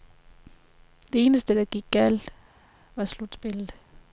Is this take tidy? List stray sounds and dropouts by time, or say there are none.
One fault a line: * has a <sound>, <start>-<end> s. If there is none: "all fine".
all fine